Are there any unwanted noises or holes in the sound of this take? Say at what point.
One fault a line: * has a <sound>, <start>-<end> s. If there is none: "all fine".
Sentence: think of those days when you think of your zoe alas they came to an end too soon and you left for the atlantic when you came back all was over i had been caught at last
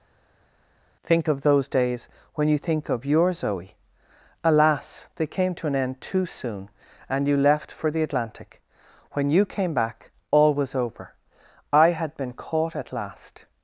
all fine